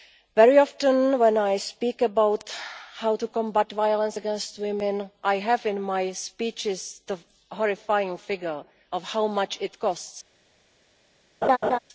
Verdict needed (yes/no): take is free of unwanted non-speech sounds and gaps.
no